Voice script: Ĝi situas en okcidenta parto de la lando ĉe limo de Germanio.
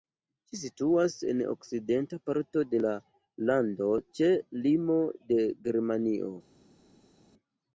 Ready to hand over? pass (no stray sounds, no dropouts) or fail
pass